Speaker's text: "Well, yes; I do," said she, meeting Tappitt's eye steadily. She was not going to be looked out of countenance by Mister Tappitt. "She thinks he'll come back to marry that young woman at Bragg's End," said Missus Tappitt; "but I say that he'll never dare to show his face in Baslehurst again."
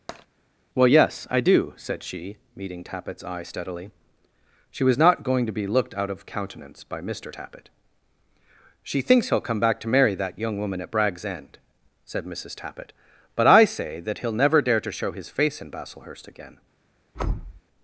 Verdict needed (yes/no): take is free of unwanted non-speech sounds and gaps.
no